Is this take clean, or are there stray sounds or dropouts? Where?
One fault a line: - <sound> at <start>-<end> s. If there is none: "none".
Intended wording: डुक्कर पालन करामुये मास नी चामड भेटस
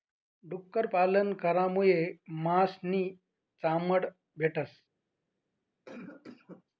- cough at 5.8-6.6 s